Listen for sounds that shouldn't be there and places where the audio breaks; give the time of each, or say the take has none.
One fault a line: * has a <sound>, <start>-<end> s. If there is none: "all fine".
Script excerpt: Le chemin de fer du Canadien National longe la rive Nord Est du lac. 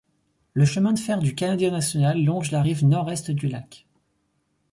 all fine